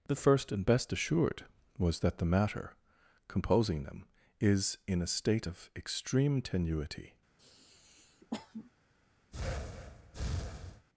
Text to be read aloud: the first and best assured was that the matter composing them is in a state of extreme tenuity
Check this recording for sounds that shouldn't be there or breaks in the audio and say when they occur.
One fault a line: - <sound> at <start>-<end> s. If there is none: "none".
- sniff at 7.4-8.7 s
- breath at 9.3-10.9 s